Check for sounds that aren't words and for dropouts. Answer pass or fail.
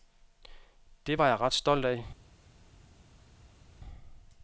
pass